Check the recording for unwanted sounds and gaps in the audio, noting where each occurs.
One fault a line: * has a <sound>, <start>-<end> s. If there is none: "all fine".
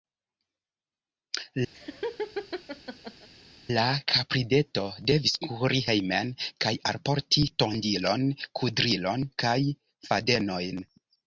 * has a laugh, 1.7-3.3 s